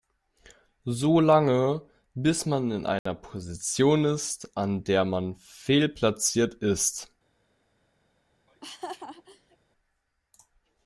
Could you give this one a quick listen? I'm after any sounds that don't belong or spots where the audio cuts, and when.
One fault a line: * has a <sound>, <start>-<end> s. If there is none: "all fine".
* has a dropout, 3.0-3.1 s
* has a laugh, 8.5-9.6 s